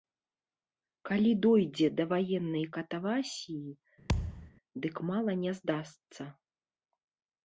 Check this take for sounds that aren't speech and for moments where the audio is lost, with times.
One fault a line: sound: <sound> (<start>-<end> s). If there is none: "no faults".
sound: thud (4.1-4.5 s)